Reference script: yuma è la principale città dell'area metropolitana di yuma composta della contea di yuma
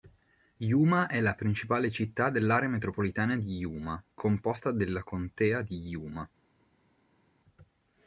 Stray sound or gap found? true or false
false